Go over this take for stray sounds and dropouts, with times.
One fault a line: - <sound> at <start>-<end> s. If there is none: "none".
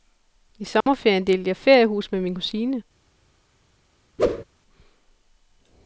- dropout at 0.8-0.9 s
- whoosh at 4.2-4.4 s